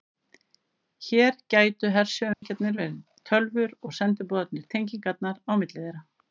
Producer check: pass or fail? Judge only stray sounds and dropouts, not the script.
fail